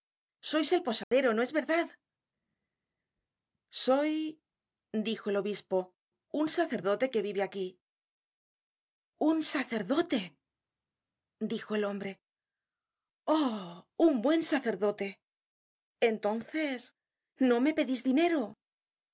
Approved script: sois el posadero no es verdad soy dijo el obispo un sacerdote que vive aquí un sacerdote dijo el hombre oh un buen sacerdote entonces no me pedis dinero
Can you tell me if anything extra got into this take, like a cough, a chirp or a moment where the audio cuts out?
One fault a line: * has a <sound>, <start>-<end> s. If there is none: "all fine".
* has a dropout, 1.0-1.1 s